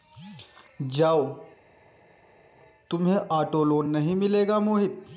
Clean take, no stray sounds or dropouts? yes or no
yes